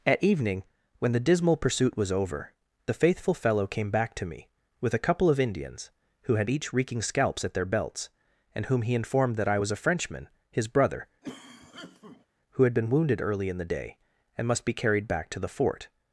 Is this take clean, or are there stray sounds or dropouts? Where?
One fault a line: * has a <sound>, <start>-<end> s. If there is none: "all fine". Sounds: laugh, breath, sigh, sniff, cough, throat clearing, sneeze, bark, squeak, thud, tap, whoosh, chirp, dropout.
* has a cough, 11.2-12.3 s